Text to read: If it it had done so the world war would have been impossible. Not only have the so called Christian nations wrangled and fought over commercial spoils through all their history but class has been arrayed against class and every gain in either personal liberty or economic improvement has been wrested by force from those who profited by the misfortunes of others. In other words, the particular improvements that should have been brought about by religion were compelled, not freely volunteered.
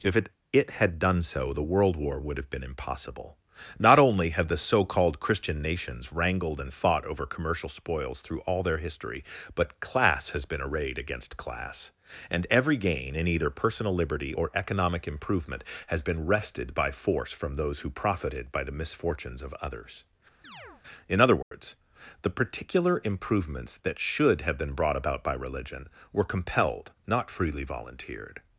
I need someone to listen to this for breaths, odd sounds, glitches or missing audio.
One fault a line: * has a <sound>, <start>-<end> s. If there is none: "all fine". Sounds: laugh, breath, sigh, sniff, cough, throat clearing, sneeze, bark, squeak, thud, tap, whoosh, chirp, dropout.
* has a chirp, 20.4-20.8 s
* has a dropout, 21.4-21.5 s